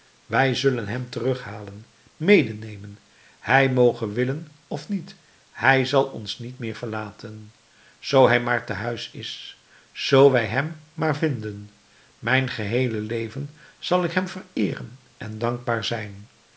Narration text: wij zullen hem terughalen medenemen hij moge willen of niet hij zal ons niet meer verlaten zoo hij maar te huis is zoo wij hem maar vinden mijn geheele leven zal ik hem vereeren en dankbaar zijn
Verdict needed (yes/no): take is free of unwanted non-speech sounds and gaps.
yes